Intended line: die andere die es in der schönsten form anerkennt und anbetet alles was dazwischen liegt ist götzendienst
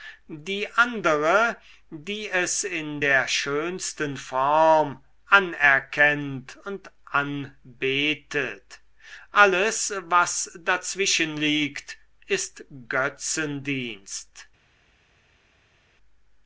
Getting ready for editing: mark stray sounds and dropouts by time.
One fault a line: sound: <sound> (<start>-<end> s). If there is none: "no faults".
no faults